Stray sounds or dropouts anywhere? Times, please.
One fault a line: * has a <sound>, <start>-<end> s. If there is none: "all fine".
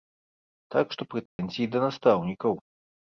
* has a dropout, 1.3-1.4 s